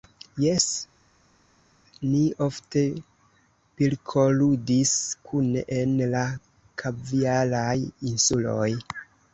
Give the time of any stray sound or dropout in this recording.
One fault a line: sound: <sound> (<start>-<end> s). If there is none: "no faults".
no faults